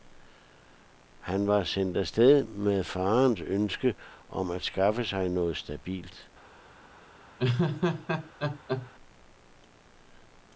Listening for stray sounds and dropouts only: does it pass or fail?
fail